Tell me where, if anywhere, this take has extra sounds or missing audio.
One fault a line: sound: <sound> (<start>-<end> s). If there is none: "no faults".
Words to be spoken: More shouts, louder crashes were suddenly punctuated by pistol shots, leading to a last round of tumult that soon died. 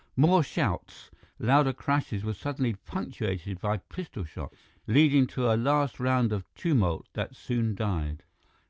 no faults